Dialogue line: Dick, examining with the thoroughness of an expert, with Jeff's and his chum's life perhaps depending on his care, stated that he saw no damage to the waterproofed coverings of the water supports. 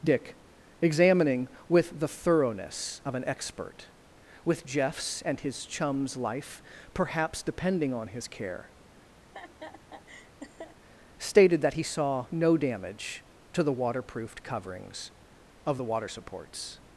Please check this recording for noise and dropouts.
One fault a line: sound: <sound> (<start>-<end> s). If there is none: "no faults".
sound: laugh (9.2-10.8 s)